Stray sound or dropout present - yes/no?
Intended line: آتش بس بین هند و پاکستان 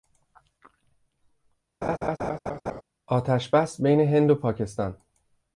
yes